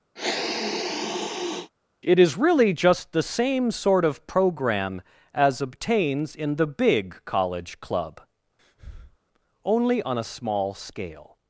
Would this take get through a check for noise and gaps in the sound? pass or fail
fail